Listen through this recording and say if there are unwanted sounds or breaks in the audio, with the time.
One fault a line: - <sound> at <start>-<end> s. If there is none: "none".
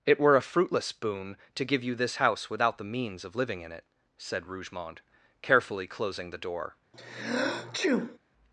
- sneeze at 6.9-8.2 s